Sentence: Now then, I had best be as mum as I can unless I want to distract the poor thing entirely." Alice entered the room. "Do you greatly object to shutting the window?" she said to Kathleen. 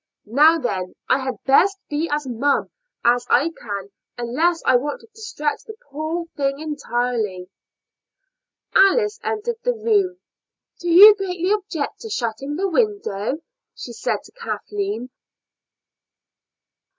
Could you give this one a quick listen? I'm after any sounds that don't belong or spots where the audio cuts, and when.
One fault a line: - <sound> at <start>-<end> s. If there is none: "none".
none